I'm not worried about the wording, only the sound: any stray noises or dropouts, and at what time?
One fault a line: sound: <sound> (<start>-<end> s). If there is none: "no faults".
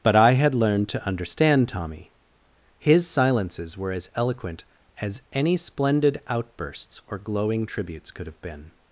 no faults